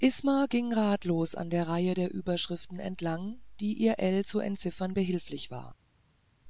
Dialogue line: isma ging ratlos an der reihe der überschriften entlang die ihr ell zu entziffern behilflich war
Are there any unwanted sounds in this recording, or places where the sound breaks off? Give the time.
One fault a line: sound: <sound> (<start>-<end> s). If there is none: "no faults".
no faults